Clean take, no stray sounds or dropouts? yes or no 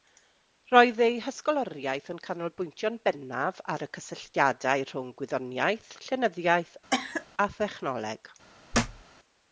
no